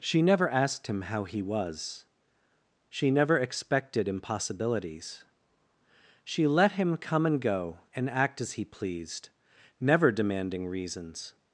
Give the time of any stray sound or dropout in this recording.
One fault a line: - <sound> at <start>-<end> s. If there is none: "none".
none